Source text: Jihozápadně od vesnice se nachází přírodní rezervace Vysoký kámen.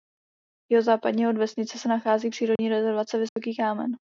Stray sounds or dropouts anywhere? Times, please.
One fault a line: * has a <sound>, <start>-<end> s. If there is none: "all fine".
* has a dropout, 2.6-2.6 s
* has a dropout, 3.3-3.4 s